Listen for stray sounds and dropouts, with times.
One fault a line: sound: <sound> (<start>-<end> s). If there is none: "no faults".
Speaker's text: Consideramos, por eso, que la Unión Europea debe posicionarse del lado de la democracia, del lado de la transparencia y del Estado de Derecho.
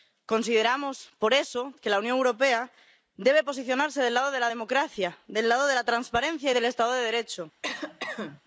sound: cough (7.6-8.4 s)